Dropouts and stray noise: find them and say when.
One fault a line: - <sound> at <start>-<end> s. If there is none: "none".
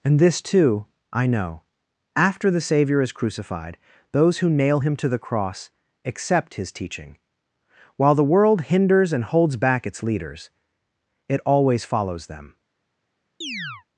- chirp at 13.4-13.8 s